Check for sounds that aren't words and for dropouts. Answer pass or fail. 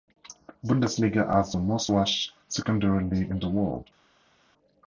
pass